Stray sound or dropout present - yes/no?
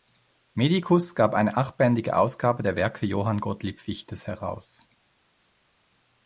no